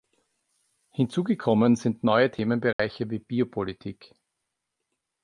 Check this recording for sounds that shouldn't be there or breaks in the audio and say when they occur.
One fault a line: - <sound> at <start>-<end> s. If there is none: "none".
- dropout at 2.7-2.8 s